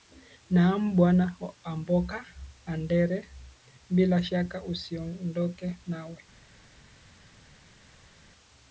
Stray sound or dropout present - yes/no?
no